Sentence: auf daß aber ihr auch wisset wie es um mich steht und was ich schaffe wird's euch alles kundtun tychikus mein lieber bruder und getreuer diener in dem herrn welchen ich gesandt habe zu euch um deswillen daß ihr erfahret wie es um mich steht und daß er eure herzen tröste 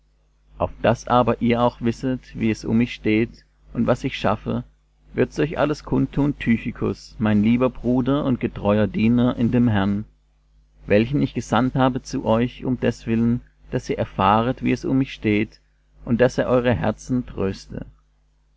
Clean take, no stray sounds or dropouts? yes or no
yes